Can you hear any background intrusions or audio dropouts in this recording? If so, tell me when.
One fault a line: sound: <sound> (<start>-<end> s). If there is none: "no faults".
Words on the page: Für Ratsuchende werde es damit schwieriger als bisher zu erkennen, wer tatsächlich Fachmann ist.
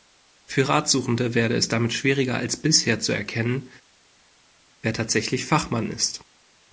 no faults